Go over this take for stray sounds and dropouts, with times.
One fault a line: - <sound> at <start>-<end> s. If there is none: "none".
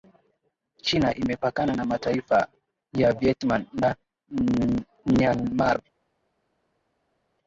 none